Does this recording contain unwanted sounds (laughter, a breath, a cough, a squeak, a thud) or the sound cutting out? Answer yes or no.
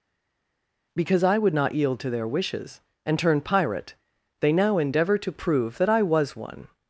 no